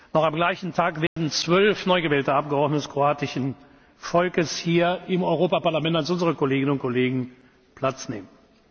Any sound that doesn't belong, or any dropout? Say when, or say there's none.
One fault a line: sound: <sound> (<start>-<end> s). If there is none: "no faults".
sound: dropout (1.1-1.2 s)